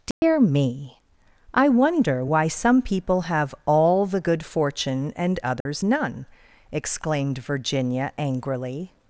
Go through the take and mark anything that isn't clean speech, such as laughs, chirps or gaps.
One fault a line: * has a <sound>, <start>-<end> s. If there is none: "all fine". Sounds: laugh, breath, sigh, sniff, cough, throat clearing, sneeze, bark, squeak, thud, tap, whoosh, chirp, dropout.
* has a dropout, 0.1-0.2 s
* has a dropout, 5.6-5.7 s